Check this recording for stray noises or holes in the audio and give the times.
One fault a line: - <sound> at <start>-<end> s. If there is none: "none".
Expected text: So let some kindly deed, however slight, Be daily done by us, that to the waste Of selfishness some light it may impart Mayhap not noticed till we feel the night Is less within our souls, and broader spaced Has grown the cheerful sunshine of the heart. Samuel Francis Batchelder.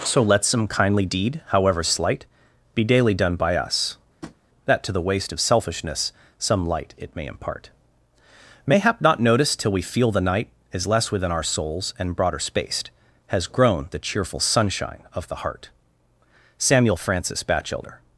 - tap at 4.2-4.4 s